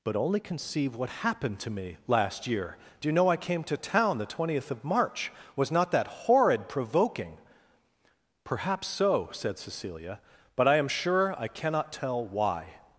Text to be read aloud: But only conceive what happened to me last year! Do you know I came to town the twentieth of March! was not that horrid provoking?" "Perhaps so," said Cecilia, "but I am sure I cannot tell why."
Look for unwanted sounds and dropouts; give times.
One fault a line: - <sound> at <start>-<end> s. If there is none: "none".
none